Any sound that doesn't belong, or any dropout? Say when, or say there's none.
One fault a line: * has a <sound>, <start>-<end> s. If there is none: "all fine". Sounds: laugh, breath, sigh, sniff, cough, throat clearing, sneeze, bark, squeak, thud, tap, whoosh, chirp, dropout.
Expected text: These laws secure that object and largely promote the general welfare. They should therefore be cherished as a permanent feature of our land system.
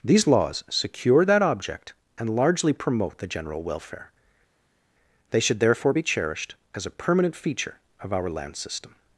all fine